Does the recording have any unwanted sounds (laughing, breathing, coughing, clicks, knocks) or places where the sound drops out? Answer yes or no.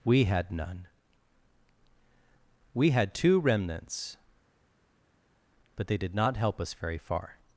no